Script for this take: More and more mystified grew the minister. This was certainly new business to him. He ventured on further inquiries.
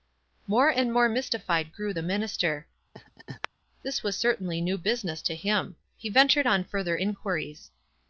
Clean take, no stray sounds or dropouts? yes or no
no